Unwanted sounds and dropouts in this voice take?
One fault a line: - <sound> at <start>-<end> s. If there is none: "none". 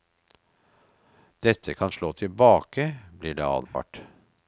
- dropout at 3.7-3.7 s